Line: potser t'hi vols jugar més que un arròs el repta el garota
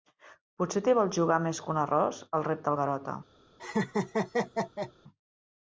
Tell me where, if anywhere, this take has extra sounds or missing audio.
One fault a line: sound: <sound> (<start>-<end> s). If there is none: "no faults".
sound: laugh (3.6-4.9 s)